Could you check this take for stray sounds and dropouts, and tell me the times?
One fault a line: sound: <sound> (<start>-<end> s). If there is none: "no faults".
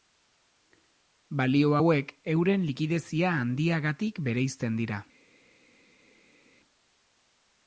no faults